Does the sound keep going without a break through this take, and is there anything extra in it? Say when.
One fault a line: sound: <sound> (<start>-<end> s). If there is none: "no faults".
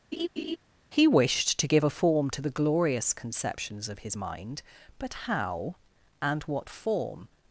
sound: laugh (0.1-0.6 s)